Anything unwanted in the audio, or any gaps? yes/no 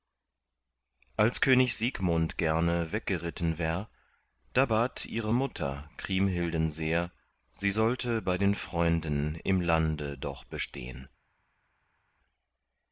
no